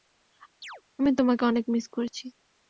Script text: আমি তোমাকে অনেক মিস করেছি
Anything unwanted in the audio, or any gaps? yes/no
yes